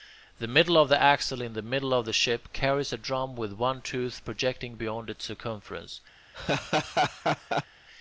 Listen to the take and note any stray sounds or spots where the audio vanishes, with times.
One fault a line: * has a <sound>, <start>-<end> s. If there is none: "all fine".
* has a laugh, 6.3-7.7 s